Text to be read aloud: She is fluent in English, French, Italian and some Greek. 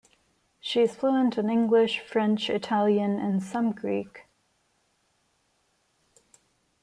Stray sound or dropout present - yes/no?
no